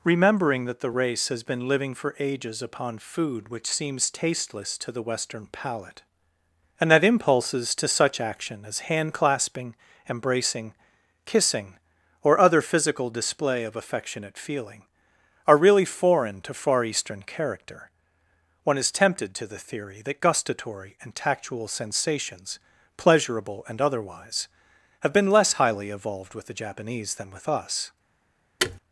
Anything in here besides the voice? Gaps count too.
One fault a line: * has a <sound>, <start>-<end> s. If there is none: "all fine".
* has a thud, 28.6-28.8 s